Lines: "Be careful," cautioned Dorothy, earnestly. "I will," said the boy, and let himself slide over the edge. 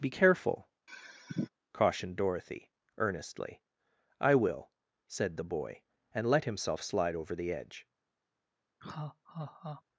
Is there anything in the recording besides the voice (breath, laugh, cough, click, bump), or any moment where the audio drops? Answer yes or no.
yes